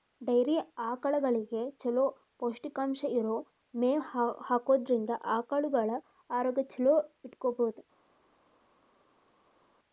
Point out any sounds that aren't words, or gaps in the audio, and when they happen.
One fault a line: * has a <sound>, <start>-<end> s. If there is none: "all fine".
all fine